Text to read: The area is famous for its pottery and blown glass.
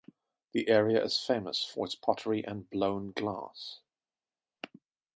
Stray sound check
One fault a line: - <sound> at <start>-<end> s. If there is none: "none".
none